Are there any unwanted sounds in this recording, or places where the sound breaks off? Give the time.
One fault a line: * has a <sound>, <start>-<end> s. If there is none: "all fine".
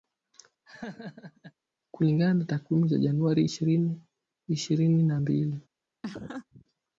* has a laugh, 0.7-1.5 s
* has a laugh, 6.0-6.6 s